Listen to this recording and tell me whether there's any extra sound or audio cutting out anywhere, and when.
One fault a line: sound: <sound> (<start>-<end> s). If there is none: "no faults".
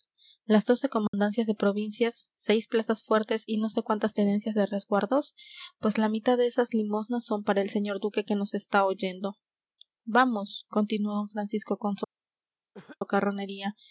sound: dropout (1.1-1.1 s)
sound: cough (12.7-13.0 s)